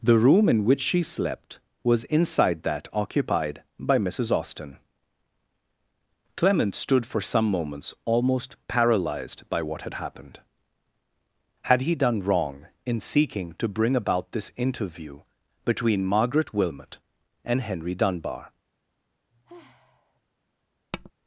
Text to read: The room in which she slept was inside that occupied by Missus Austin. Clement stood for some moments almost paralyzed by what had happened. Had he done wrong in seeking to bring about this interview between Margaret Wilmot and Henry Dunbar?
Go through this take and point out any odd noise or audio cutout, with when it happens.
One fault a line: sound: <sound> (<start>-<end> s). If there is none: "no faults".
sound: sigh (19.3-20.2 s)
sound: tap (20.9-21.1 s)